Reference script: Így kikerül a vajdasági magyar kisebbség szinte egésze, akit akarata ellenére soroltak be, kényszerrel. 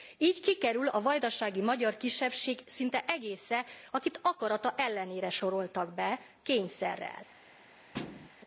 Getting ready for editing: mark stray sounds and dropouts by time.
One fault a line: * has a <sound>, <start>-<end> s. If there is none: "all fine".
* has a thud, 7.9-8.3 s